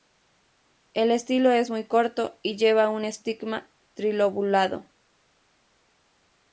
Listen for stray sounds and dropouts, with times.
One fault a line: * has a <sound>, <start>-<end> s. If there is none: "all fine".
all fine